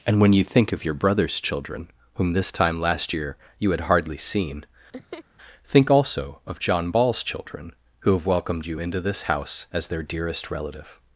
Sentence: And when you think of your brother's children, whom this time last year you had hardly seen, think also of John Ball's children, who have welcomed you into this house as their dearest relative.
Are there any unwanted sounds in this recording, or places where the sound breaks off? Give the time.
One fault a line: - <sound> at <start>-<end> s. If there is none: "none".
- laugh at 4.9-5.2 s